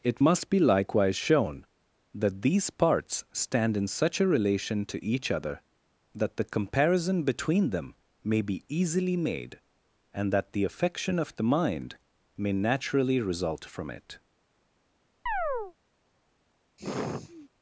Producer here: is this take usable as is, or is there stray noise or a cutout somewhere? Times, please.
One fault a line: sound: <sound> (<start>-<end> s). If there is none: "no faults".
sound: chirp (15.3-15.7 s)
sound: sigh (16.8-17.5 s)